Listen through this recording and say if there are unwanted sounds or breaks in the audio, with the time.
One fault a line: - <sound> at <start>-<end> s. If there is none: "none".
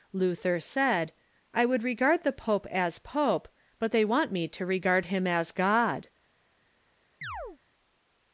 - chirp at 7.2-7.6 s